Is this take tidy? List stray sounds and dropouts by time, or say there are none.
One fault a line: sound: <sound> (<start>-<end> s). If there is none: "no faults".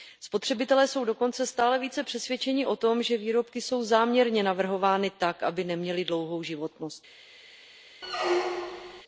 sound: squeak (8.0-9.0 s)